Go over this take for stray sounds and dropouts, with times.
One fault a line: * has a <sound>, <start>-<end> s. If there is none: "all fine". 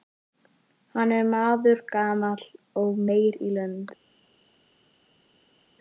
all fine